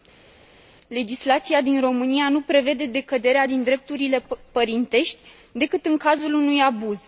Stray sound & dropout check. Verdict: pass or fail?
pass